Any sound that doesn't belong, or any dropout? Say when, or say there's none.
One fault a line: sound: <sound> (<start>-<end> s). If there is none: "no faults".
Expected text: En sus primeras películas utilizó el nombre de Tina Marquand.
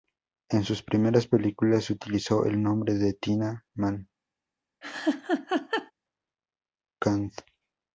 sound: laugh (4.8-5.9 s)